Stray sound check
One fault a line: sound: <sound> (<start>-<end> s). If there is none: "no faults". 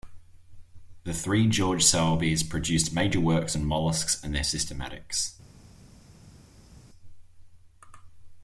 no faults